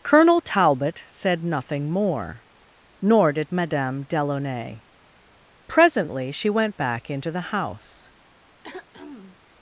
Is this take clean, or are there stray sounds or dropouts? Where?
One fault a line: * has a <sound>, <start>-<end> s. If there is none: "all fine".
* has a throat clearing, 8.6-9.4 s